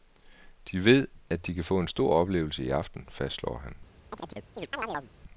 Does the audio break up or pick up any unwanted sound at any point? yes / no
yes